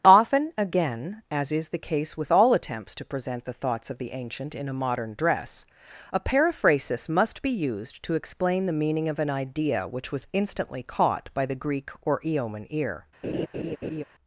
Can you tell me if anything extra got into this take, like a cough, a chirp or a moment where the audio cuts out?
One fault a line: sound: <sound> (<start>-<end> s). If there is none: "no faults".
sound: laugh (13.2-14.0 s)